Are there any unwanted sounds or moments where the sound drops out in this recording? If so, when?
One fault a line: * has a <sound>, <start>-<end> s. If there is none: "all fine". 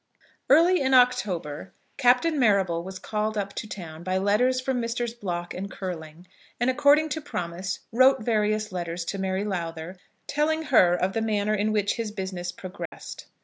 * has a dropout, 12.9-12.9 s